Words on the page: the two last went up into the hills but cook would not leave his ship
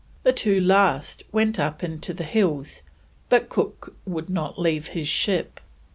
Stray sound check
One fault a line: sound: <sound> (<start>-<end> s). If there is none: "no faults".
no faults